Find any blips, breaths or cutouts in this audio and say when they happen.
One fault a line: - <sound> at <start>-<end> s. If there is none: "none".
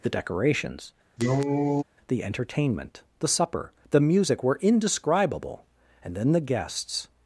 - cough at 1.2-1.8 s